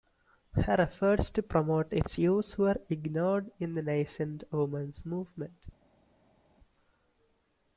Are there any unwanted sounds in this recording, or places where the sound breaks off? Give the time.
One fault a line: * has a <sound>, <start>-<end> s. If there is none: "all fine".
all fine